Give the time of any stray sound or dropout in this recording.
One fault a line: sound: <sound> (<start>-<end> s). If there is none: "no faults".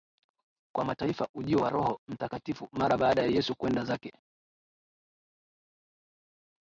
no faults